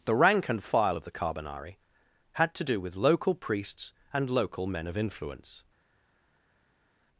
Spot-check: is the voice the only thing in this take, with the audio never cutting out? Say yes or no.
yes